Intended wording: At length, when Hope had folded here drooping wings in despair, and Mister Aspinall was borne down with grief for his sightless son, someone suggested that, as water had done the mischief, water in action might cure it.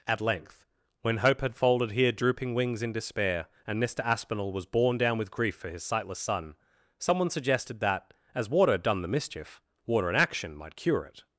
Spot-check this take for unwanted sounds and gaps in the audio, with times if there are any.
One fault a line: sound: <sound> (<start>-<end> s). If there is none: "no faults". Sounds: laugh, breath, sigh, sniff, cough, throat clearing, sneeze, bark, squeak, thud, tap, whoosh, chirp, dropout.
no faults